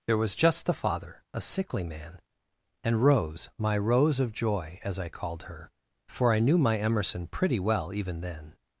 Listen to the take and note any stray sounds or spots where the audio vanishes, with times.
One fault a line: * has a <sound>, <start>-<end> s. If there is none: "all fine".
all fine